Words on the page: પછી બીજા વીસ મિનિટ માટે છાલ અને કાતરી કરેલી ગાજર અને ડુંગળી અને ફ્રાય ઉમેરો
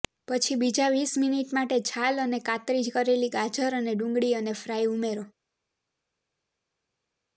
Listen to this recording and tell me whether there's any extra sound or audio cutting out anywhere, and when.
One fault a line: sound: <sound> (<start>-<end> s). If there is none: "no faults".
no faults